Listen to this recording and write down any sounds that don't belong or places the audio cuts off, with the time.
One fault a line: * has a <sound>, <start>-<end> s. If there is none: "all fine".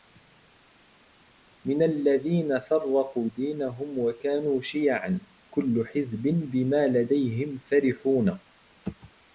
all fine